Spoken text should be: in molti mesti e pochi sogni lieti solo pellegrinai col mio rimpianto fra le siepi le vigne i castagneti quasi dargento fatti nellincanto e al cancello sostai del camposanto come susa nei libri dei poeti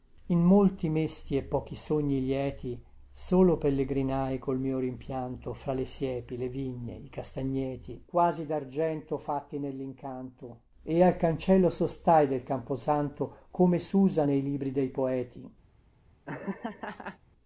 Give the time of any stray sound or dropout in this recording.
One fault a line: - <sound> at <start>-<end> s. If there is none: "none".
- laugh at 16.3-17.2 s